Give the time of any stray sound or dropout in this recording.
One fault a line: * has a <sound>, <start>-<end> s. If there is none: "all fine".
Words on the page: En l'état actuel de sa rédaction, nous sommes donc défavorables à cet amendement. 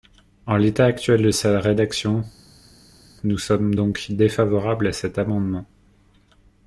all fine